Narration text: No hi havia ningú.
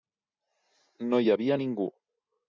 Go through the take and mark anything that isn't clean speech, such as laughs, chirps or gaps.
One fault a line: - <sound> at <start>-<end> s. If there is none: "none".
none